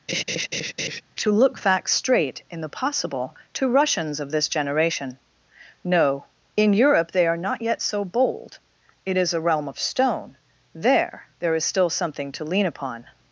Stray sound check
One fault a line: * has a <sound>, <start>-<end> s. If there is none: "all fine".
* has a laugh, 0.1-1.0 s